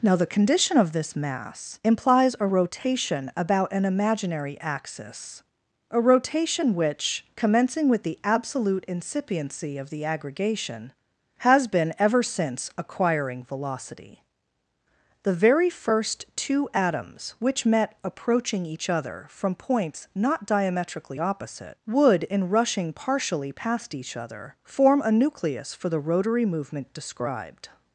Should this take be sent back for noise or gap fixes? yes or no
no